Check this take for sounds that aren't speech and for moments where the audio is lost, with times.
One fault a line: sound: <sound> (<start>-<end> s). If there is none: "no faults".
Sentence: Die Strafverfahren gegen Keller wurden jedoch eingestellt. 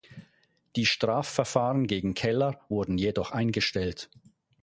no faults